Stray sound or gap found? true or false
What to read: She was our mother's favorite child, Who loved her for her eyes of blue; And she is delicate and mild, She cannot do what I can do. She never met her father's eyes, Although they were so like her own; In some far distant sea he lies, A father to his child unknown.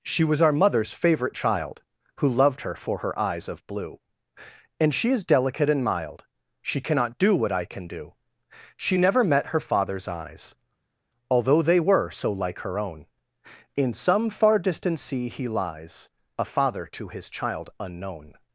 false